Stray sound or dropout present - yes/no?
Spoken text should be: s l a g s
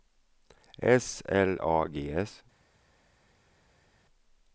no